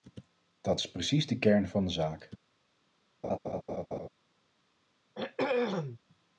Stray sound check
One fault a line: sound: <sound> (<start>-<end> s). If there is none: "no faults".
sound: laugh (3.2-4.1 s)
sound: throat clearing (5.1-6.0 s)